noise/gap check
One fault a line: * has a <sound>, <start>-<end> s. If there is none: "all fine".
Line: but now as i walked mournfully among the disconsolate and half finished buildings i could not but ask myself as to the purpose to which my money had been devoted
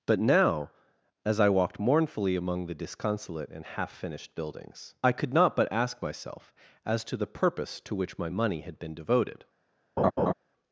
* has a laugh, 10.0-10.3 s